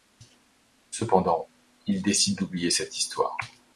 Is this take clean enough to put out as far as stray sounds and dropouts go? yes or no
yes